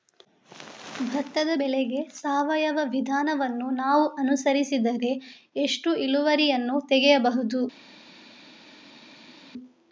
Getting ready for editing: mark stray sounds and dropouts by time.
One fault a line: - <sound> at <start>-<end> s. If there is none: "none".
none